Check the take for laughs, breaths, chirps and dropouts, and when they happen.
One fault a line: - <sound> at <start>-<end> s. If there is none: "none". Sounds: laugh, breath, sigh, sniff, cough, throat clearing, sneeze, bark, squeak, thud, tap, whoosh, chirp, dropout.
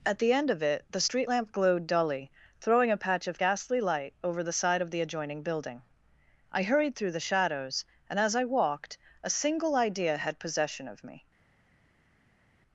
none